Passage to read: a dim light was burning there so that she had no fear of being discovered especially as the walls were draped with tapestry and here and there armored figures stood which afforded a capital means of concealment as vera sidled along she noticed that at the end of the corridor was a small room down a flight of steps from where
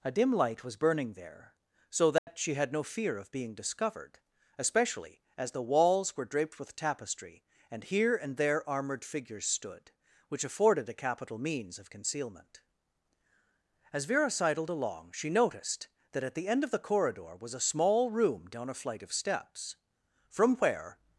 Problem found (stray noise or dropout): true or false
true